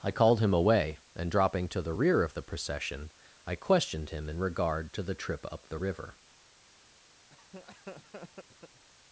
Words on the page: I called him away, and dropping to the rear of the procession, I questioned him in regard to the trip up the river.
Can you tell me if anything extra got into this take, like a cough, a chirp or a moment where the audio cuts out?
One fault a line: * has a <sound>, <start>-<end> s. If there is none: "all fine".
* has a laugh, 7.3-8.8 s